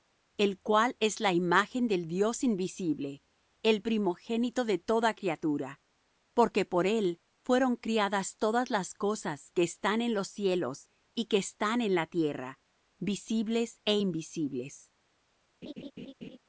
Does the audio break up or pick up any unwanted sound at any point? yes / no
yes